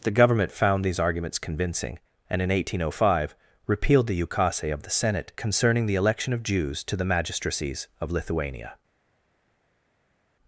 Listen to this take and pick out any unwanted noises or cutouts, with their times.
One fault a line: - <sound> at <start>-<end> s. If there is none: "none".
none